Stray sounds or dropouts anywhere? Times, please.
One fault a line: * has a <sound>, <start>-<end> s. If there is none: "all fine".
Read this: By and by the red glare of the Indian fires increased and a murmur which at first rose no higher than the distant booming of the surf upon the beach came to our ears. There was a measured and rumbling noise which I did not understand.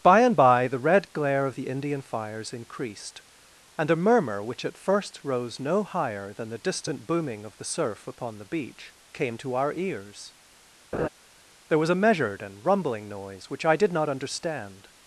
* has a laugh, 10.9-11.1 s